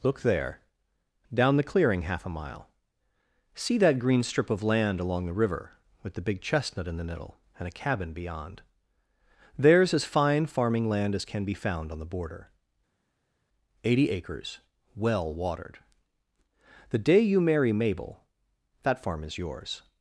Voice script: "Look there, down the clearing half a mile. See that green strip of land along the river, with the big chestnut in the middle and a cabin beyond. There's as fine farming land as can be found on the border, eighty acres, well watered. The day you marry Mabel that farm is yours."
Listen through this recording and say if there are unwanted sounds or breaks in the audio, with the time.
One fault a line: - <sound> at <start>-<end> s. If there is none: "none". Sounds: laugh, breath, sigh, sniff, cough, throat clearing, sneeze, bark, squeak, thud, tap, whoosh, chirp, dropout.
none